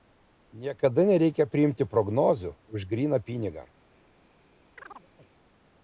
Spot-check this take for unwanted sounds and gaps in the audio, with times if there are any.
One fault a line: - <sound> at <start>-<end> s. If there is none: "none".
- chirp at 4.8-5.3 s